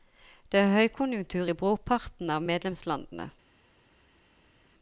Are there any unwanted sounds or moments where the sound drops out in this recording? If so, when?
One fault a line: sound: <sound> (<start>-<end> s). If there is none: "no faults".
no faults